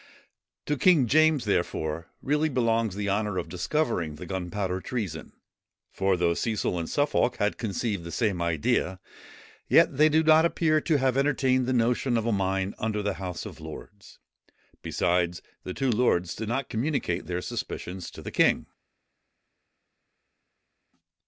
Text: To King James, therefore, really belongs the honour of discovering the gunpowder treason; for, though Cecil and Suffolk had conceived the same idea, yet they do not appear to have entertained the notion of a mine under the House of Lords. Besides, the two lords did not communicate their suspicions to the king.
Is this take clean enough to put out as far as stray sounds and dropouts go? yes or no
yes